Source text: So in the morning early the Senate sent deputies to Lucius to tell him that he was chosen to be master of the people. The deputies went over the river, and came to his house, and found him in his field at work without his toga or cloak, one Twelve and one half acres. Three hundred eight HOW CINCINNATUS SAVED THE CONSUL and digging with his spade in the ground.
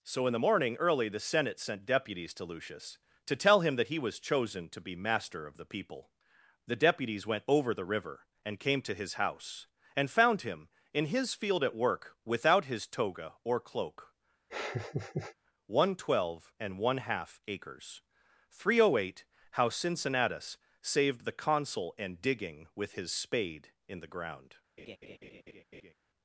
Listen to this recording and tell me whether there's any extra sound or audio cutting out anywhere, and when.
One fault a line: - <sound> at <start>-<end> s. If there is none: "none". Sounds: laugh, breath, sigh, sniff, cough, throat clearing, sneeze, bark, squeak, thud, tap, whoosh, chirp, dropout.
- laugh at 14.5-15.3 s
- laugh at 24.8-25.9 s